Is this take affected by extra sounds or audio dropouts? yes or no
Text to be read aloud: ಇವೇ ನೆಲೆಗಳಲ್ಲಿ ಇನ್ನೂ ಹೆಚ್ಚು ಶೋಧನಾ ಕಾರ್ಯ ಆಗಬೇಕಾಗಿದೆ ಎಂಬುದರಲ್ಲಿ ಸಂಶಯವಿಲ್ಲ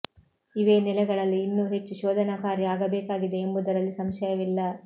no